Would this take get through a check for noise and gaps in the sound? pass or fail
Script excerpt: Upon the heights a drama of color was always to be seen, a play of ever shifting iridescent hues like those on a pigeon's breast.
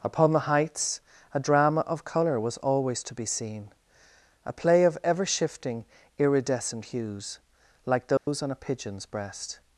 fail